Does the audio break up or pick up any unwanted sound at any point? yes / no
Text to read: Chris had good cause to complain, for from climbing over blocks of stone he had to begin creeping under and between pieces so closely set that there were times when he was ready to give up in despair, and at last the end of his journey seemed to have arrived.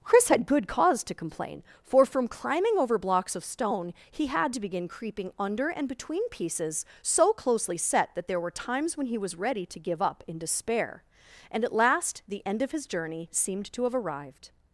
no